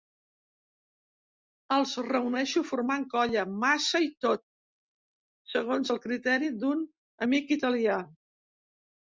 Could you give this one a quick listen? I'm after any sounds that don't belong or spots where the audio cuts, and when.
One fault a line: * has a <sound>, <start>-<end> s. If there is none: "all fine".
all fine